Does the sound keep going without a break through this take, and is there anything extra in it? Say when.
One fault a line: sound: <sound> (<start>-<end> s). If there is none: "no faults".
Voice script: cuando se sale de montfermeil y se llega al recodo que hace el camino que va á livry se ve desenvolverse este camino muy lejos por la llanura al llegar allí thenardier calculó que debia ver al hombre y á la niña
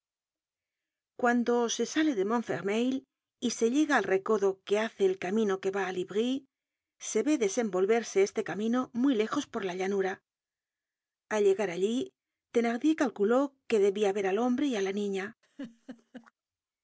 sound: laugh (15.4-16.3 s)